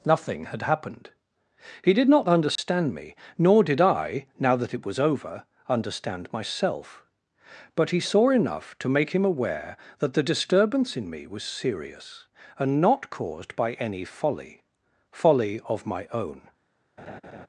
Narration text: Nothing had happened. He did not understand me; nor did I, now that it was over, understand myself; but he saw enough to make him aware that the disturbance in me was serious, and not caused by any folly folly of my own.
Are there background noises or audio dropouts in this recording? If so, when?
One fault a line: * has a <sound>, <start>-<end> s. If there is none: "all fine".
* has a dropout, 2.6-2.6 s
* has a laugh, 17.0-17.5 s